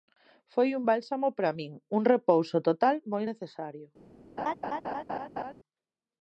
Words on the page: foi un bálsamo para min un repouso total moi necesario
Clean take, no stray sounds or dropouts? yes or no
no